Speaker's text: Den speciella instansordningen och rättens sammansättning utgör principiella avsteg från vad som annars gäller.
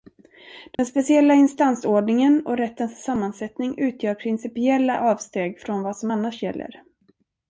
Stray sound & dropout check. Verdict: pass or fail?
fail